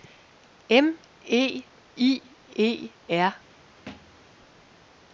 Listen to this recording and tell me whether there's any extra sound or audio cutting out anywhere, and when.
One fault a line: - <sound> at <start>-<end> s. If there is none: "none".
- thud at 3.9-4.2 s